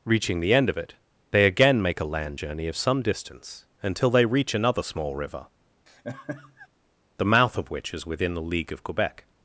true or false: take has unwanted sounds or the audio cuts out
true